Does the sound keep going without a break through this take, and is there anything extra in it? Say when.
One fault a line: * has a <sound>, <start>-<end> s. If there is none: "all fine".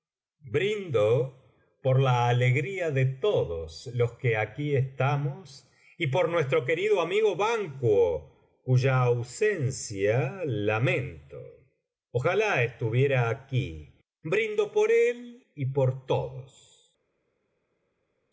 all fine